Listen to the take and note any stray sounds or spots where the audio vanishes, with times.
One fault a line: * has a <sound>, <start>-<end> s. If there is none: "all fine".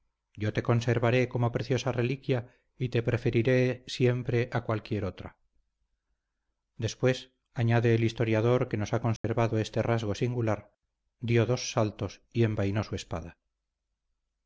* has a dropout, 9.2-9.2 s